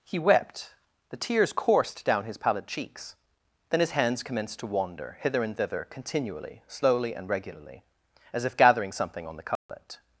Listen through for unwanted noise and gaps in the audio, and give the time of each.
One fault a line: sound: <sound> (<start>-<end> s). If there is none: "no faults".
sound: dropout (9.6-9.7 s)